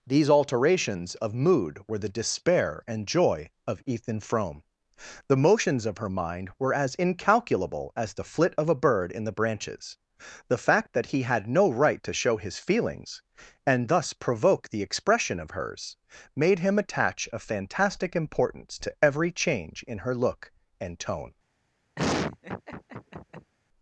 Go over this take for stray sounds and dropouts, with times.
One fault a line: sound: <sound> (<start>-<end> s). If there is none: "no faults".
sound: laugh (22.0-23.5 s)